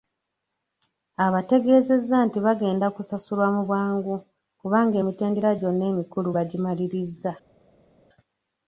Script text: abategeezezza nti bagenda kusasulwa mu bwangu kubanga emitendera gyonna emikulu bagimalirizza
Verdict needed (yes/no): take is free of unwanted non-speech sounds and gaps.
yes